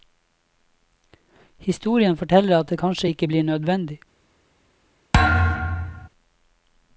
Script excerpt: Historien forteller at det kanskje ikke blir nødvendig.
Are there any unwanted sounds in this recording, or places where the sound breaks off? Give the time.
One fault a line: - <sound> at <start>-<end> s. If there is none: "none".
- thud at 5.1-6.1 s